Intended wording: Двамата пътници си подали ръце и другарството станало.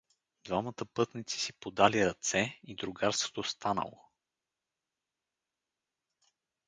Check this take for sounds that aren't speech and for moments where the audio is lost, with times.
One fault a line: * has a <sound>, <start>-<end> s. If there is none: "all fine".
all fine